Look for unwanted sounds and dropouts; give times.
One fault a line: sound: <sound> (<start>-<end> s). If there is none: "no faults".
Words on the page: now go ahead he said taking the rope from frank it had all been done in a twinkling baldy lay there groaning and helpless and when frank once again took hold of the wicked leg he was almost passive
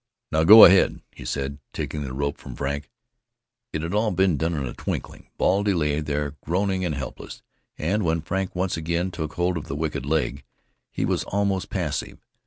no faults